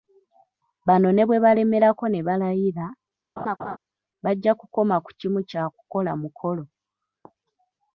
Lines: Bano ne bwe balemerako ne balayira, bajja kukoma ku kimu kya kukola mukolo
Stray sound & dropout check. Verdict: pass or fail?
fail